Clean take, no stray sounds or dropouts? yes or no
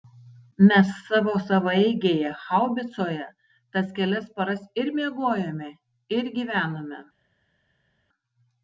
yes